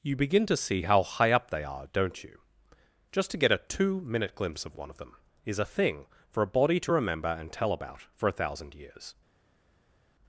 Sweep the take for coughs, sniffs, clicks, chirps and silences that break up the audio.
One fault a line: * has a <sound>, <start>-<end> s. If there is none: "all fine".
all fine